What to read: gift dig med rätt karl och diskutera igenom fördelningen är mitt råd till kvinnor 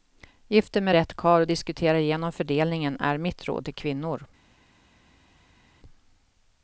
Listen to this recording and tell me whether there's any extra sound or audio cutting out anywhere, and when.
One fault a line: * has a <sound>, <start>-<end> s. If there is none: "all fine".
all fine